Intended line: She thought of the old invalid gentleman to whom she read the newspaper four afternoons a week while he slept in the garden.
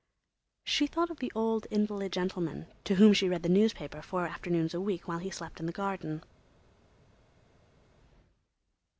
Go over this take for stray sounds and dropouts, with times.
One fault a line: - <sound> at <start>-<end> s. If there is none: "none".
none